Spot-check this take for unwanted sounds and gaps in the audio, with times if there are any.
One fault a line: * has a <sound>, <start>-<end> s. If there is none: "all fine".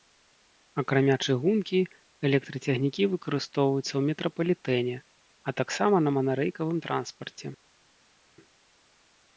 all fine